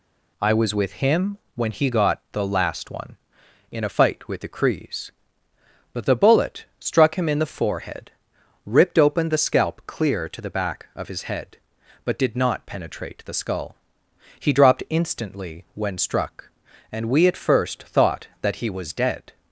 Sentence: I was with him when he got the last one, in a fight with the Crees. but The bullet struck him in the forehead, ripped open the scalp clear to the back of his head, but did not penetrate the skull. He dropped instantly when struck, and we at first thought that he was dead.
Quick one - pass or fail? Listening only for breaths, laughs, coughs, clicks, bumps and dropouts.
pass